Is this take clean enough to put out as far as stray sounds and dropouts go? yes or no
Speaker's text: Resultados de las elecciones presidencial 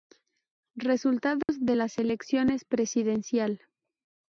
no